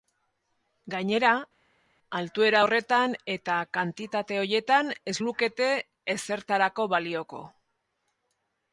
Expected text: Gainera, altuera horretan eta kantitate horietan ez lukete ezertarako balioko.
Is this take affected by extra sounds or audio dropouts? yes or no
no